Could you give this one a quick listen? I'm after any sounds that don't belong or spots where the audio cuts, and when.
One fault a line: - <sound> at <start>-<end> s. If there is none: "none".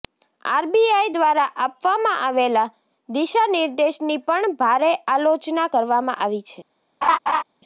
- laugh at 7.0-7.4 s